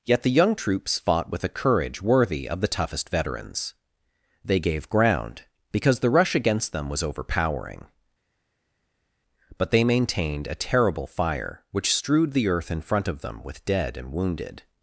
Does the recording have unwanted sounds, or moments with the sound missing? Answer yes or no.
no